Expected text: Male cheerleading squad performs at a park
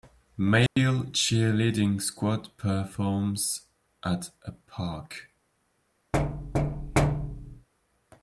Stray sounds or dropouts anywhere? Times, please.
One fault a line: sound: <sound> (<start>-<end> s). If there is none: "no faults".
sound: dropout (0.7-0.8 s)
sound: thud (6.1-7.7 s)